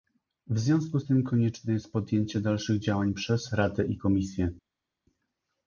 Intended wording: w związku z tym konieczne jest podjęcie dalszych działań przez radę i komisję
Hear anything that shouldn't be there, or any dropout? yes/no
no